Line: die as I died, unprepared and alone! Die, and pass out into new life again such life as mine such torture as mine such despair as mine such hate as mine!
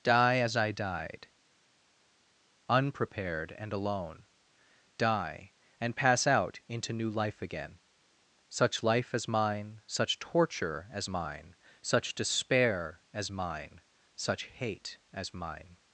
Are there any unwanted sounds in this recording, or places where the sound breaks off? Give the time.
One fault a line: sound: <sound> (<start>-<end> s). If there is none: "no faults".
no faults